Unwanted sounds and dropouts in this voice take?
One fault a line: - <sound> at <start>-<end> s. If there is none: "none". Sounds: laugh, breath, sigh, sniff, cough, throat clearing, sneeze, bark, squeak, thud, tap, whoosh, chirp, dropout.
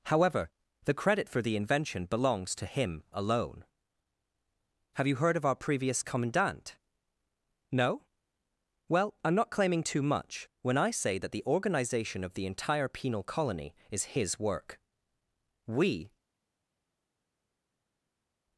none